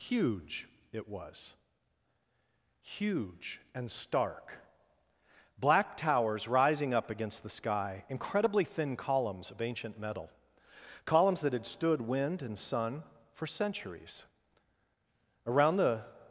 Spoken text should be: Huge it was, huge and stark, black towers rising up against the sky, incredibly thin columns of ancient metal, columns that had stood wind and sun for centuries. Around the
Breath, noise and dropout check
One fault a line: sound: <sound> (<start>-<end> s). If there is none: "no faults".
no faults